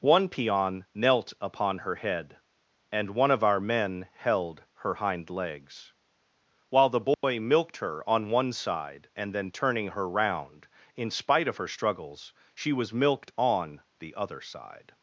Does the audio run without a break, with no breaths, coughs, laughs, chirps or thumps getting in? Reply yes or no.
no